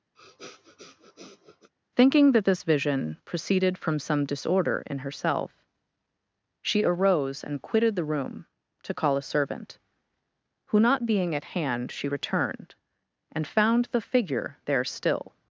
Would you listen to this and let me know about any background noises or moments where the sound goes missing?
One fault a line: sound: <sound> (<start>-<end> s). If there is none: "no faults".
sound: sniff (0.2-1.7 s)